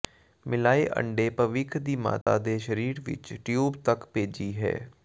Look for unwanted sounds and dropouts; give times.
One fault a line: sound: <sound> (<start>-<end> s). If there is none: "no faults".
sound: dropout (2.2-2.3 s)